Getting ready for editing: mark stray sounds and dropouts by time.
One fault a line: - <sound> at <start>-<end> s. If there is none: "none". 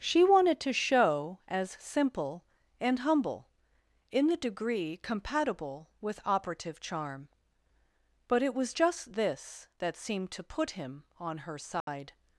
- dropout at 11.8-11.9 s